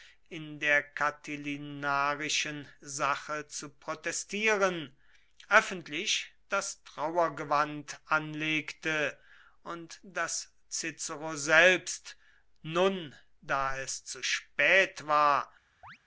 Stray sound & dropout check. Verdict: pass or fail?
fail